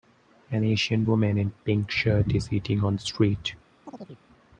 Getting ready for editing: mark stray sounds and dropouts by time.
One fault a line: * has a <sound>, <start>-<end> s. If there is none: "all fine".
* has a chirp, 3.9-4.2 s